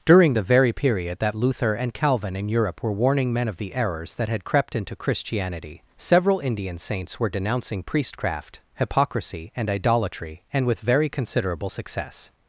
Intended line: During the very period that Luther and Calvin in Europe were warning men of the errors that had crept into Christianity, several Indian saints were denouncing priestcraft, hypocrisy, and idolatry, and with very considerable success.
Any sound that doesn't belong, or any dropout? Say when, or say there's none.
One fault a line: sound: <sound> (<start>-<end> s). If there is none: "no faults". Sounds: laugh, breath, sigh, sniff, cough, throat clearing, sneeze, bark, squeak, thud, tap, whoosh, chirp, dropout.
no faults